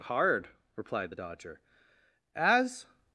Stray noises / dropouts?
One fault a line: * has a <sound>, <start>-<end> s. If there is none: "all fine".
all fine